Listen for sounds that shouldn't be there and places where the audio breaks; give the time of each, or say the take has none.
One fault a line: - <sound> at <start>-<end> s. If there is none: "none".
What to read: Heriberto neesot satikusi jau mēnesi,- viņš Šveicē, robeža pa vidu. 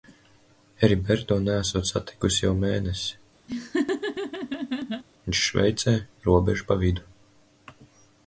- laugh at 3.5-5.0 s